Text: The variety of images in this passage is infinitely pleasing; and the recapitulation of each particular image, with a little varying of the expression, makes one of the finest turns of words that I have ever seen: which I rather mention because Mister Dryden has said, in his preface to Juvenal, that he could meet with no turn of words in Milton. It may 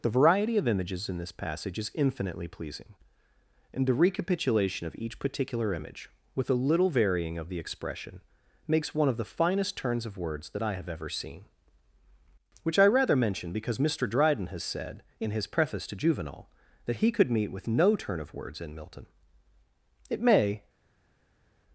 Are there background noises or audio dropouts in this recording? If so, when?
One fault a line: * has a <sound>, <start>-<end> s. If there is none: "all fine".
all fine